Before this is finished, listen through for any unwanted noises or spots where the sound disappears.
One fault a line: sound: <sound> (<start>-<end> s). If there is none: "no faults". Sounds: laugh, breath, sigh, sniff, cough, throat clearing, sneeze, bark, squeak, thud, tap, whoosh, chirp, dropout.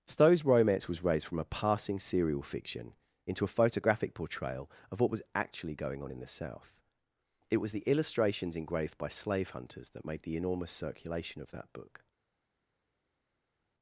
no faults